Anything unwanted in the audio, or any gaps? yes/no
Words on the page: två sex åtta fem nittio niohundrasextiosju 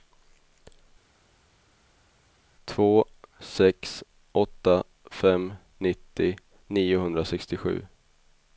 no